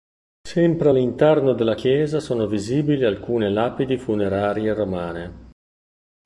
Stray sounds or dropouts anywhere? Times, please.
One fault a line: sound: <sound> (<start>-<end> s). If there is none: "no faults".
no faults